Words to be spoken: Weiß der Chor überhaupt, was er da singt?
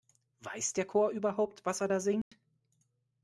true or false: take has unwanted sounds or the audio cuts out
true